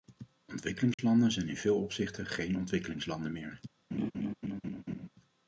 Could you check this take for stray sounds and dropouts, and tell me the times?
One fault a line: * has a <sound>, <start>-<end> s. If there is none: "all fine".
* has a dropout, 0.9-1.0 s
* has a laugh, 3.9-5.1 s